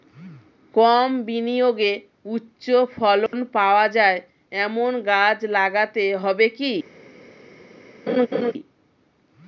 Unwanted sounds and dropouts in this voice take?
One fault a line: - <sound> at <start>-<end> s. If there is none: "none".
- dropout at 3.3-3.3 s
- laugh at 8.1-8.5 s